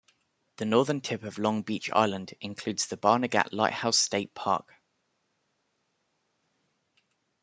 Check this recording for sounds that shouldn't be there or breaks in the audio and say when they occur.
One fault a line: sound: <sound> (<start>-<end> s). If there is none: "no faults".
no faults